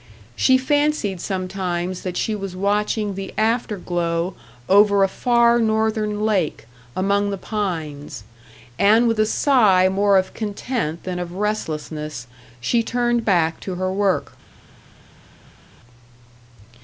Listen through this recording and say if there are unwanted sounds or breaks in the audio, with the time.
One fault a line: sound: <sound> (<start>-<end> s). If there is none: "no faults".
no faults